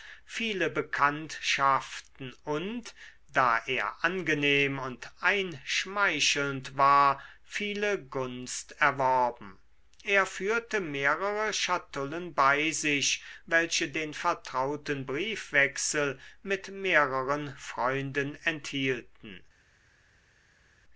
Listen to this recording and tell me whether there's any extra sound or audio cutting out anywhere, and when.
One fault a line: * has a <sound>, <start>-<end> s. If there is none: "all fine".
all fine